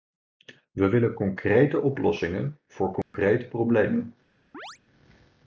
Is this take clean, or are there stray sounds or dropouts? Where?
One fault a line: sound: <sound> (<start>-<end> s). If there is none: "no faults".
sound: dropout (3.0-3.1 s)
sound: chirp (4.5-4.8 s)